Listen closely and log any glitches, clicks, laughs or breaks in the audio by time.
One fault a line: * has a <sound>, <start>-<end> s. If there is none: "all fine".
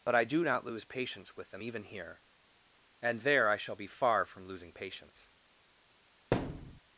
* has a thud, 6.3-6.8 s